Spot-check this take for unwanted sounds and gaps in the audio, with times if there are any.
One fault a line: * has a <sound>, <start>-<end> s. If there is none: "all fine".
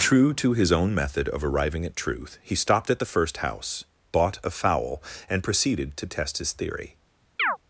* has a chirp, 7.4-7.6 s